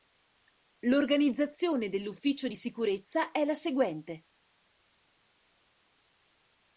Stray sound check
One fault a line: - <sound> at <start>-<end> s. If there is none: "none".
none